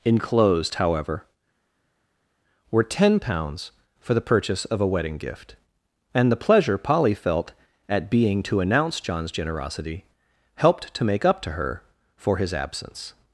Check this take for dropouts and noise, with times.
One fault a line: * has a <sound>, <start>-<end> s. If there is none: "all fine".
all fine